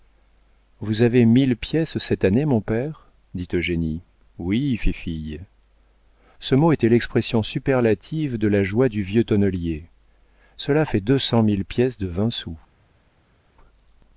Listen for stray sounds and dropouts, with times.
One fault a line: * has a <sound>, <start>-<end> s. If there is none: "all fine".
all fine